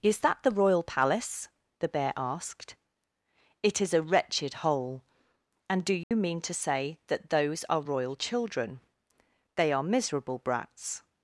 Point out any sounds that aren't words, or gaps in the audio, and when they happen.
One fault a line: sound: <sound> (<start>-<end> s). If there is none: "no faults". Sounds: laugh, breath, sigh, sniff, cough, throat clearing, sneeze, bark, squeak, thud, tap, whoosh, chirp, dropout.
sound: dropout (6.0-6.1 s)